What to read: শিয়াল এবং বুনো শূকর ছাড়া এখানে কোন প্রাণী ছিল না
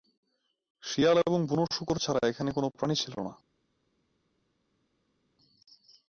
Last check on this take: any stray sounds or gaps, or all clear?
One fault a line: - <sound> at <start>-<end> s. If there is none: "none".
none